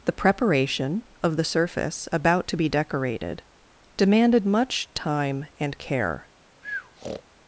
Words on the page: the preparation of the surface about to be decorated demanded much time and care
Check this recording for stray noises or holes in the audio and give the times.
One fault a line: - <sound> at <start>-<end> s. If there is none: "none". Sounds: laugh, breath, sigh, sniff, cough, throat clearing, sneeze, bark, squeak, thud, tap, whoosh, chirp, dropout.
- breath at 6.6-7.2 s